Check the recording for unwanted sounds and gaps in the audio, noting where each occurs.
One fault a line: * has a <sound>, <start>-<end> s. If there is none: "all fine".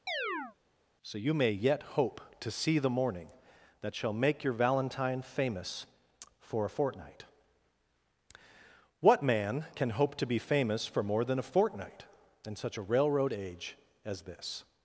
* has a chirp, 0.1-0.6 s